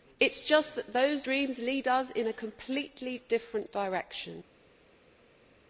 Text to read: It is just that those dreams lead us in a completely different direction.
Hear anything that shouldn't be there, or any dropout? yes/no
no